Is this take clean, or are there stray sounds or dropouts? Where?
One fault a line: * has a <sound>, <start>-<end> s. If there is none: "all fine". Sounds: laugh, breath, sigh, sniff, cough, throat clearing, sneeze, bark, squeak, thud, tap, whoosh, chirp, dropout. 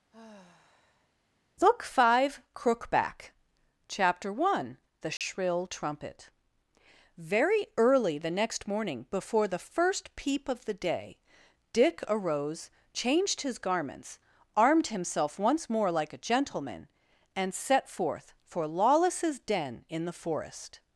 * has a sigh, 0.1-1.1 s
* has a dropout, 5.2-5.2 s